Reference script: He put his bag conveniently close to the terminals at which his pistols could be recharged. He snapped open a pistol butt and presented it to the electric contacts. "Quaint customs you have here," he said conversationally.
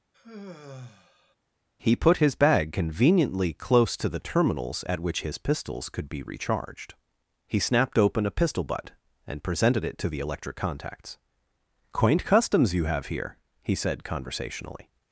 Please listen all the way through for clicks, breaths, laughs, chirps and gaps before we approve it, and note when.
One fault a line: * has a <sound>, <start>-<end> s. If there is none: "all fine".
* has a sigh, 0.1-1.4 s